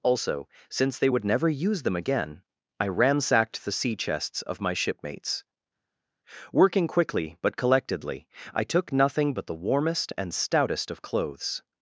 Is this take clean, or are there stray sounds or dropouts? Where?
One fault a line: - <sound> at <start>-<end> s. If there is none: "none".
none